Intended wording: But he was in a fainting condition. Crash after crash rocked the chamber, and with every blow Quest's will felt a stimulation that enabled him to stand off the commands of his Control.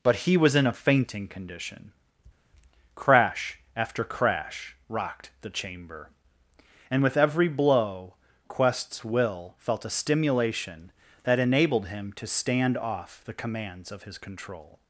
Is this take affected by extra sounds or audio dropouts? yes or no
no